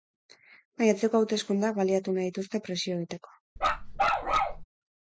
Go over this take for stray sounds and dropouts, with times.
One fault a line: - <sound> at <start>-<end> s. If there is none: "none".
- bark at 3.6-4.6 s